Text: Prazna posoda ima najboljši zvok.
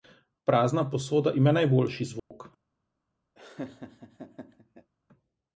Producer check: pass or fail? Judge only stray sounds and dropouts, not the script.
fail